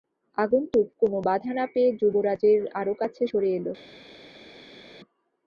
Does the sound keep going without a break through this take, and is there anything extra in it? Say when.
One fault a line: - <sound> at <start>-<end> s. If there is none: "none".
none